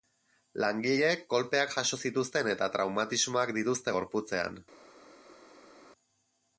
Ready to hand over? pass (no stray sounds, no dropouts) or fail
pass